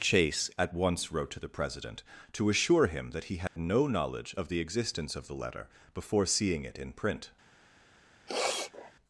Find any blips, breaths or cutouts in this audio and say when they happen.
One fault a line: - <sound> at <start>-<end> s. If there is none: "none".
- dropout at 3.5-3.6 s
- sniff at 8.3-8.9 s